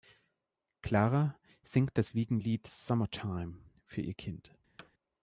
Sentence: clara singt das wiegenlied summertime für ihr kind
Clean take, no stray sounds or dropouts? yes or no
no